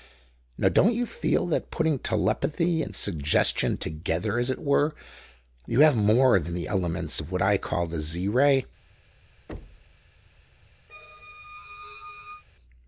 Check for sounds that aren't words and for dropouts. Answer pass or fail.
fail